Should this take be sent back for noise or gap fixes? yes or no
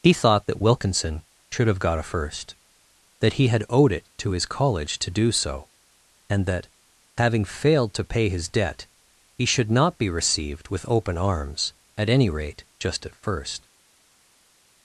no